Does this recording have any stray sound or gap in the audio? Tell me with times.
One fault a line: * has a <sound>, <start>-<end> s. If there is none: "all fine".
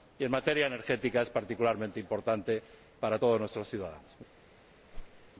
* has a whoosh, 4.9-5.3 s